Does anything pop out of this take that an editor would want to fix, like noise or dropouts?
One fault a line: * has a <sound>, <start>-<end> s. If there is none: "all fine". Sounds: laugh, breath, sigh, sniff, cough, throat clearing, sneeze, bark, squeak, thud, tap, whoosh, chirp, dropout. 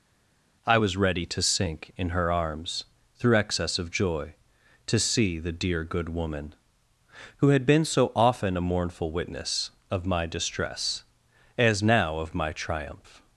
all fine